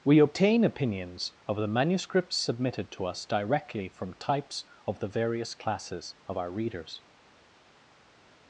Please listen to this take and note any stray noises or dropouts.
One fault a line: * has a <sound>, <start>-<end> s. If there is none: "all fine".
all fine